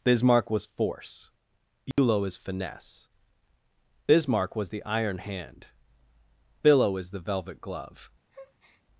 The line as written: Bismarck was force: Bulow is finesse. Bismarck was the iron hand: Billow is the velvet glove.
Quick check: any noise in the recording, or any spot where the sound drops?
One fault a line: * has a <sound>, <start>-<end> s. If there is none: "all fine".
* has a dropout, 1.9-2.0 s
* has a breath, 8.3-8.8 s